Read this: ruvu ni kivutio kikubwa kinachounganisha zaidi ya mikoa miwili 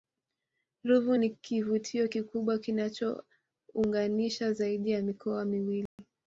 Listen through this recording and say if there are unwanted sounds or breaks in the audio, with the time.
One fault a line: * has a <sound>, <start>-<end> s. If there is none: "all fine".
* has a dropout, 5.9-6.0 s